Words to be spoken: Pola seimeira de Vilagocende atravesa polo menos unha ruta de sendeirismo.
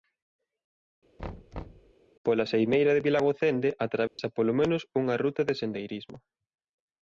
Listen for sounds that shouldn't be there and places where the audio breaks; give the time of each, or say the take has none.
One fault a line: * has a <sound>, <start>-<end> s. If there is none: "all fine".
* has a thud, 1.2-1.9 s
* has a dropout, 4.1-4.2 s